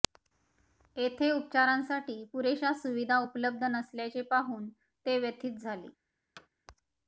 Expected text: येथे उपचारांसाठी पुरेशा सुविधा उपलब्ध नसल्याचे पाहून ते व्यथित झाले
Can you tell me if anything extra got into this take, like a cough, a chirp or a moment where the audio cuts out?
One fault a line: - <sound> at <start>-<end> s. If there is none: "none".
- thud at 6.4-6.5 s